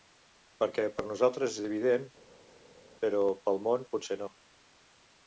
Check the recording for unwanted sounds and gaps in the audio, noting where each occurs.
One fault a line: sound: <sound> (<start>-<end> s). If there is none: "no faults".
no faults